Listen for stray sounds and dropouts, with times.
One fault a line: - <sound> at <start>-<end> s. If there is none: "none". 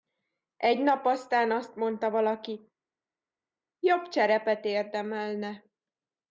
none